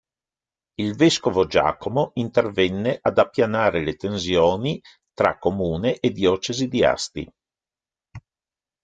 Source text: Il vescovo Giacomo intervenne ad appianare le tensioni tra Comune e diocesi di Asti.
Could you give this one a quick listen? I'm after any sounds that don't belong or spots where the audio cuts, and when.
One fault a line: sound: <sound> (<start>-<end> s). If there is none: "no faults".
no faults